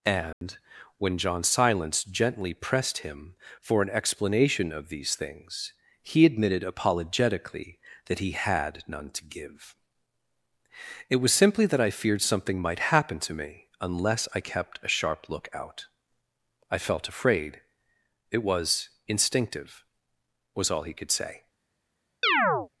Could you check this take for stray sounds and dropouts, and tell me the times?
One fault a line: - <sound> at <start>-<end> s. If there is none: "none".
- dropout at 0.3-0.4 s
- chirp at 22.2-22.7 s